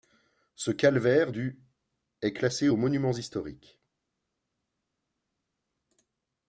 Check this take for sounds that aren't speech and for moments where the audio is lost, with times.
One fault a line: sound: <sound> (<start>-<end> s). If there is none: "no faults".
no faults